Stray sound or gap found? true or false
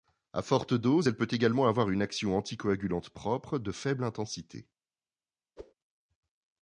true